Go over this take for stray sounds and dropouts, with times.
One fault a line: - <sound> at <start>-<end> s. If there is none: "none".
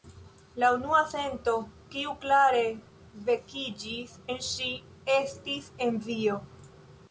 none